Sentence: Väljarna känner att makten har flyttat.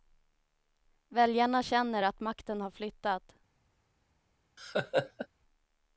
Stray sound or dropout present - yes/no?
yes